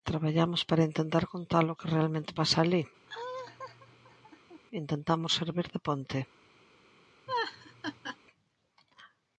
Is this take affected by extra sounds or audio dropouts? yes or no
yes